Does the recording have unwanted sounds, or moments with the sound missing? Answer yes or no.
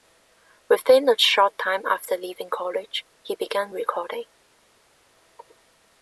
no